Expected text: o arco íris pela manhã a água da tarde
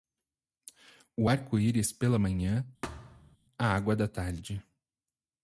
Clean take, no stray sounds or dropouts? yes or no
no